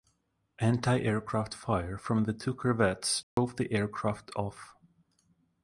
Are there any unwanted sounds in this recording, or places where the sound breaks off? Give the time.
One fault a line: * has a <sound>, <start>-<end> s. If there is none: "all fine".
* has a dropout, 3.2-3.4 s